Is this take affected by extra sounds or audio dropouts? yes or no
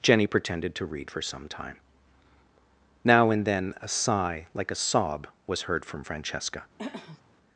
yes